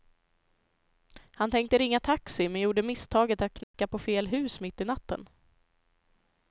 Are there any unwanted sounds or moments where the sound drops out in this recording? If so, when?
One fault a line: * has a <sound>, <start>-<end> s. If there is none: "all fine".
* has a dropout, 3.6-3.7 s